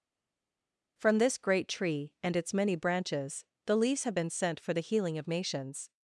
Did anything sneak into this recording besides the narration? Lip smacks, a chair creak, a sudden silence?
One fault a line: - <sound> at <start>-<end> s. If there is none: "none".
none